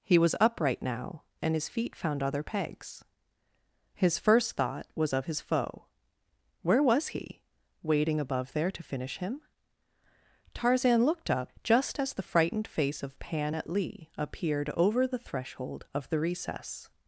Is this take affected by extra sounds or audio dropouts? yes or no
no